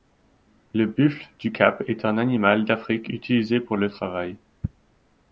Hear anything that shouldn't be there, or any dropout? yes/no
no